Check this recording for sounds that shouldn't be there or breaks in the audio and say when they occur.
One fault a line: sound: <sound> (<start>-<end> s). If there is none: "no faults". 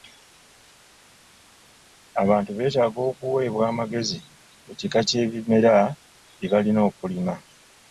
no faults